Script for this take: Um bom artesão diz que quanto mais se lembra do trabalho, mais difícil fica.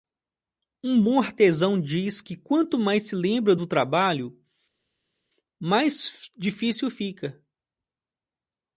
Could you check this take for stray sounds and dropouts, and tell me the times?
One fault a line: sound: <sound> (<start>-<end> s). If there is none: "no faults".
no faults